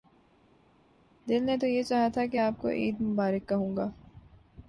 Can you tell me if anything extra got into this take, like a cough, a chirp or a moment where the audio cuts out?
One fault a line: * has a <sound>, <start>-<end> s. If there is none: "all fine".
all fine